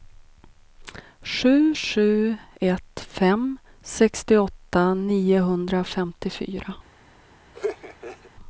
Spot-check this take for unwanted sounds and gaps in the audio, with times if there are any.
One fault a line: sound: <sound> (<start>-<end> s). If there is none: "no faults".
sound: laugh (7.5-8.3 s)